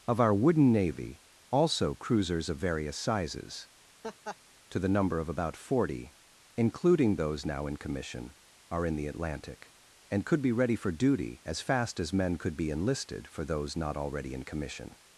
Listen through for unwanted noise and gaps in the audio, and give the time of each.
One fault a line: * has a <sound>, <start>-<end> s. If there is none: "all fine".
* has a laugh, 4.0-4.4 s